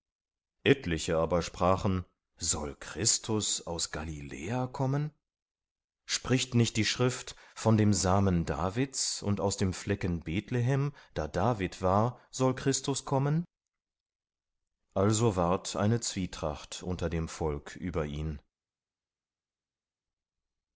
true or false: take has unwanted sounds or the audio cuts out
false